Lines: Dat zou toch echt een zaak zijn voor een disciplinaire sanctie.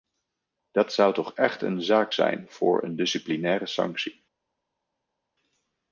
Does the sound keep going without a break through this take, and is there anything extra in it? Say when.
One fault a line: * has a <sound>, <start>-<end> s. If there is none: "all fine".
all fine